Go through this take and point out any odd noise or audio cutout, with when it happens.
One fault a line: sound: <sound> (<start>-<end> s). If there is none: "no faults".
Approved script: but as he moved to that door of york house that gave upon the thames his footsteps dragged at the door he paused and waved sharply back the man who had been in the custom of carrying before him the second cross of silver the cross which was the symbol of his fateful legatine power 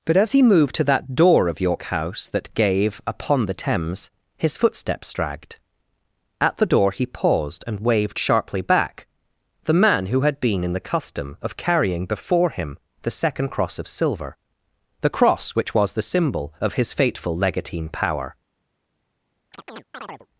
sound: chirp (19.5-20.3 s)